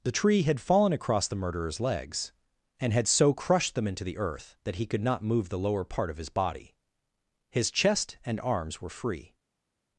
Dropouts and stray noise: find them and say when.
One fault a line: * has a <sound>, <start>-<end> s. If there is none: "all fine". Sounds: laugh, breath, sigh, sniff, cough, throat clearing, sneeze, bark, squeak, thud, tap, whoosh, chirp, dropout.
all fine